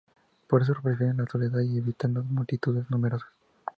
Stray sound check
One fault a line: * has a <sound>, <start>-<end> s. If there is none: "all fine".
all fine